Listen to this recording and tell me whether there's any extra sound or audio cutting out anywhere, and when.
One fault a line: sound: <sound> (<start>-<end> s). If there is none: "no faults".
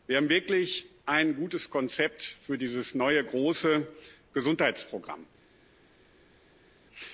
no faults